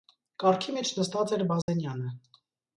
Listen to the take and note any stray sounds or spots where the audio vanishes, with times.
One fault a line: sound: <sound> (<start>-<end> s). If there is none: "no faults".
sound: dropout (1.6-1.7 s)